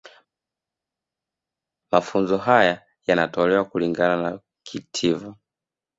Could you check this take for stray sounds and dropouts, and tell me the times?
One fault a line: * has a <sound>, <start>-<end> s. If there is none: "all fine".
all fine